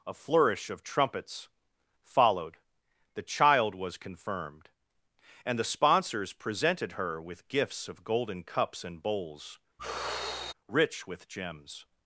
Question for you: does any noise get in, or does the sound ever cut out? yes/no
yes